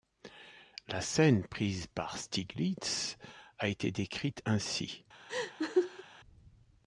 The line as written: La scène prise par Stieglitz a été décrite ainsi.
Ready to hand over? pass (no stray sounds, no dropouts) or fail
fail